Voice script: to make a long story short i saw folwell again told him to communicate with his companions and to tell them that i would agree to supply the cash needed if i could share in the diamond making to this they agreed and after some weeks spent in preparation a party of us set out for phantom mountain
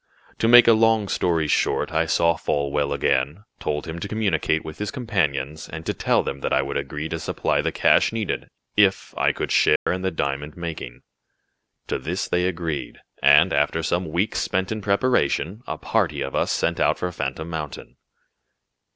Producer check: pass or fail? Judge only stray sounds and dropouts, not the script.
fail